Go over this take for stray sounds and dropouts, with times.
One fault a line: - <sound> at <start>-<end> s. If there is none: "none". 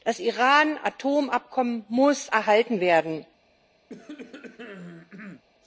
- cough at 3.9-5.4 s